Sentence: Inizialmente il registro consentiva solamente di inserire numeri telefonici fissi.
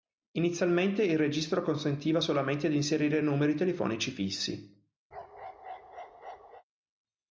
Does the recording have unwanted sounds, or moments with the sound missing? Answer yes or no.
yes